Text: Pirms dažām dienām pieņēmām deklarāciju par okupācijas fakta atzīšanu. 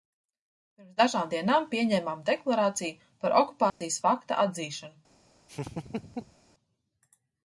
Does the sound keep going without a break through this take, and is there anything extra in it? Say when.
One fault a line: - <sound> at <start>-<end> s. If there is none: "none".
- dropout at 3.7-3.8 s
- laugh at 5.5-6.4 s